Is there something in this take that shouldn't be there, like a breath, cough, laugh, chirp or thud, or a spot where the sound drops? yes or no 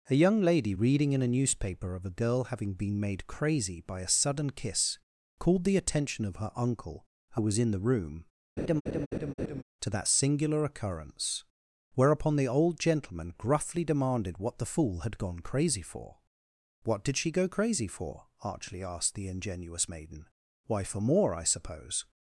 yes